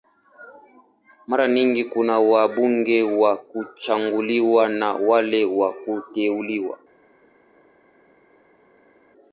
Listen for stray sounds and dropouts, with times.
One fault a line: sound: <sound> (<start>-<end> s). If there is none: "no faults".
no faults